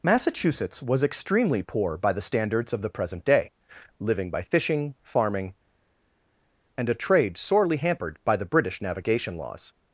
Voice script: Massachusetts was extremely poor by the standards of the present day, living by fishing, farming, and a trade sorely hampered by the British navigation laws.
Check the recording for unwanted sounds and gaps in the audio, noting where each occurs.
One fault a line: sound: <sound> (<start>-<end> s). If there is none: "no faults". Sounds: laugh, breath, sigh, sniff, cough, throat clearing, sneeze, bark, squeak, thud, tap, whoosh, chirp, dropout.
no faults